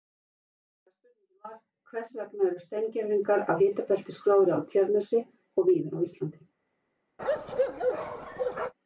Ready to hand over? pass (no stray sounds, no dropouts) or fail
fail